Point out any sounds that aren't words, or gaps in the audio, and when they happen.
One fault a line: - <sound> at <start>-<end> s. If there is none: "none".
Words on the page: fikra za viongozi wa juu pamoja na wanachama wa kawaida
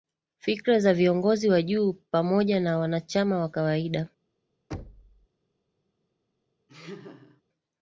- thud at 4.7-5.3 s
- laugh at 6.7-7.4 s